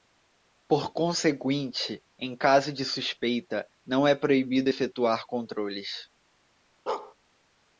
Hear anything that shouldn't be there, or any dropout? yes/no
yes